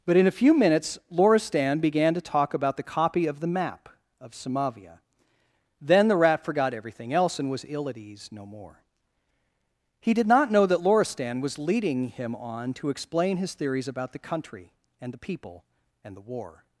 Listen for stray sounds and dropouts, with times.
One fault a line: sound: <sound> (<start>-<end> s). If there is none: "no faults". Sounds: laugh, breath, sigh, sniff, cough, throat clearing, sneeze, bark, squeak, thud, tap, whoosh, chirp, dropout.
no faults